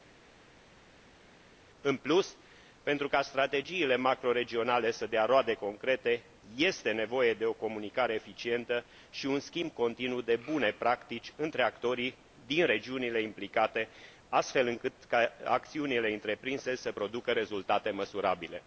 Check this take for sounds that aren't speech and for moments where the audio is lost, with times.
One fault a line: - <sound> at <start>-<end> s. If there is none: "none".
none